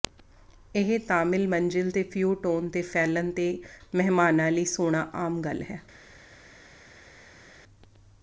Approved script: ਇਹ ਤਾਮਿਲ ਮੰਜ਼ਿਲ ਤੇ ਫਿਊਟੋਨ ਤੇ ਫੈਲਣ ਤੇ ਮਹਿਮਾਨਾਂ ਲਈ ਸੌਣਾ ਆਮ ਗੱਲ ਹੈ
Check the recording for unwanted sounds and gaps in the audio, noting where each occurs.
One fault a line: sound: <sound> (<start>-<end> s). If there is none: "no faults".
no faults